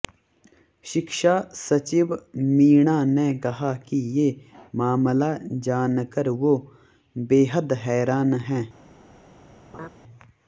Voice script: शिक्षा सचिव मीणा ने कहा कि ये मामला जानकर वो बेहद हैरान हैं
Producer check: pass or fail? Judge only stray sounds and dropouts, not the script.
fail